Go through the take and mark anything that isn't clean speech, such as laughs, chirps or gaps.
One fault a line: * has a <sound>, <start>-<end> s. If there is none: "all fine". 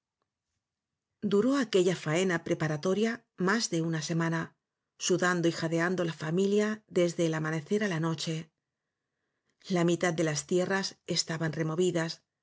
all fine